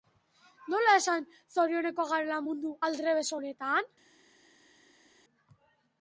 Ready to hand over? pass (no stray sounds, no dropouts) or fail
pass